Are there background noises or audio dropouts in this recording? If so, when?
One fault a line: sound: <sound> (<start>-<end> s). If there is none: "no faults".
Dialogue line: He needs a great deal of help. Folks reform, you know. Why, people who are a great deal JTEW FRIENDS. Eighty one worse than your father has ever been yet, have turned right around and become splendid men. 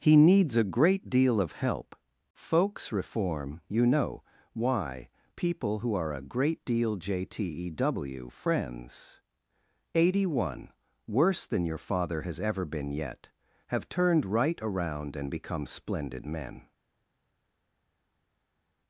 no faults